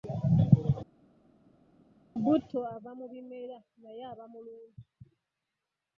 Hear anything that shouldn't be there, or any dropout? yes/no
no